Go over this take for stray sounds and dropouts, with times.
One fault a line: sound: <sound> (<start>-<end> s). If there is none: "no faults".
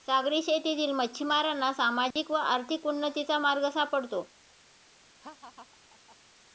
sound: dropout (2.1-2.2 s)
sound: laugh (5.2-6.2 s)